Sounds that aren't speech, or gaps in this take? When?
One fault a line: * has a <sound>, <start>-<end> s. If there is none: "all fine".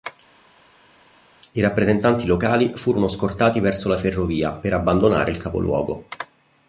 all fine